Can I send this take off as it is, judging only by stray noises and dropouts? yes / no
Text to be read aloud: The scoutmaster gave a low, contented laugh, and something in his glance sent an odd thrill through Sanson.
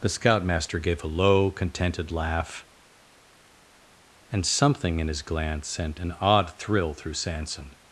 yes